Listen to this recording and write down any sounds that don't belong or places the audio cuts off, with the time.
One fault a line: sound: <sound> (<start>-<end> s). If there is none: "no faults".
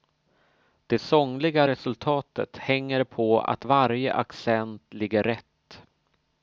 no faults